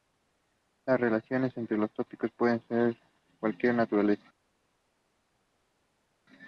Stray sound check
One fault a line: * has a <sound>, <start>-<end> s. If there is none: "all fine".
all fine